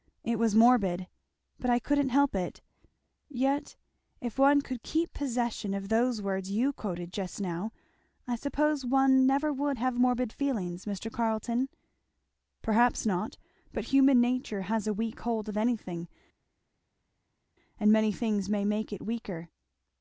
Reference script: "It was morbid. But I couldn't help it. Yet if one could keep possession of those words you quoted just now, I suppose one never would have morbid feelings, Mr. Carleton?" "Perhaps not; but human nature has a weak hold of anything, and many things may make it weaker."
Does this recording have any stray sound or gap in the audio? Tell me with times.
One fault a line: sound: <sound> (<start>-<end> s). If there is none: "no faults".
no faults